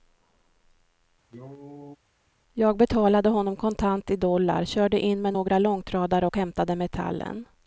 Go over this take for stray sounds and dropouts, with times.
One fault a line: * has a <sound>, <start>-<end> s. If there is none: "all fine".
* has a cough, 1.3-2.0 s